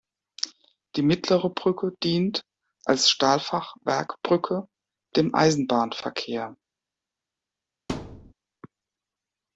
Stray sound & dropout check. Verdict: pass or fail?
fail